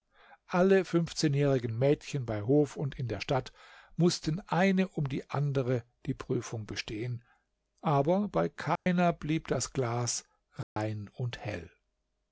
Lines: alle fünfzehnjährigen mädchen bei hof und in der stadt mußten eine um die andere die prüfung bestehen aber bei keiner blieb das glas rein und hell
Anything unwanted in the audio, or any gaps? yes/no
yes